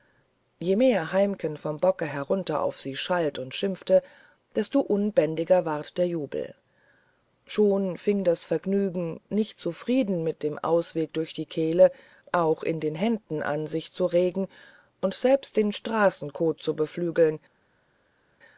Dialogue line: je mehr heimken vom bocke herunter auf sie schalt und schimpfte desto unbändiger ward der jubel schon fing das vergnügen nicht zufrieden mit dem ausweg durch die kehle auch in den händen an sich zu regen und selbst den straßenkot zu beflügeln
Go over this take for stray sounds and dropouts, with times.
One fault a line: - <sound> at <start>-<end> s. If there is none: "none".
none